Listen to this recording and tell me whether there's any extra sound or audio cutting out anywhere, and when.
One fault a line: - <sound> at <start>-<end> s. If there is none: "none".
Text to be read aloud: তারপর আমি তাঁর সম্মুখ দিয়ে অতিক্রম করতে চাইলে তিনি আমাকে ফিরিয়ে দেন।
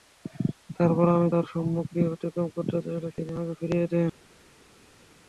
none